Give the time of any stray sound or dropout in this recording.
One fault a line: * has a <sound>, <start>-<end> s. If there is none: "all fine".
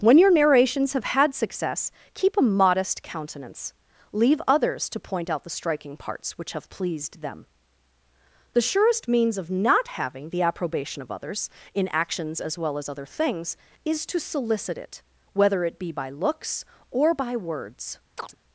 * has a chirp, 18.2-18.4 s